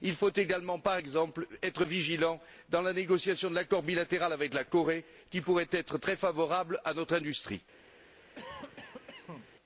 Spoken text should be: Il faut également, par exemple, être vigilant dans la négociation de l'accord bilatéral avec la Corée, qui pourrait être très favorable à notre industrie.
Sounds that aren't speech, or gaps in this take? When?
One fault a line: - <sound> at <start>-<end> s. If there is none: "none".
- cough at 8.4-9.5 s